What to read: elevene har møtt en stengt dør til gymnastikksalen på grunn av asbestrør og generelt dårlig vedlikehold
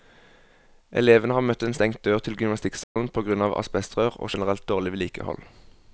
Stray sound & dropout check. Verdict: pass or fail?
fail